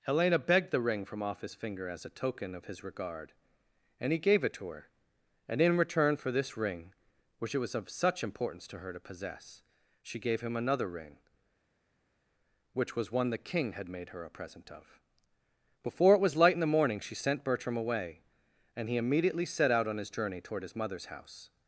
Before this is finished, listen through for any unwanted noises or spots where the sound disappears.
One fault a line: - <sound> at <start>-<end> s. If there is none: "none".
none